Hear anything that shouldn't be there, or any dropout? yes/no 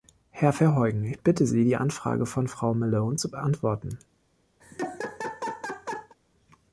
yes